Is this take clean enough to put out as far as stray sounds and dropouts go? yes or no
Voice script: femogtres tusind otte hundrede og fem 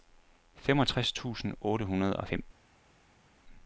yes